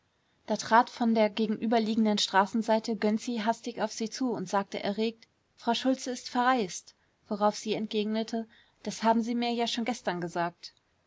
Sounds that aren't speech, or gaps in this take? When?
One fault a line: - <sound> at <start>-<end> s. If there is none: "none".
none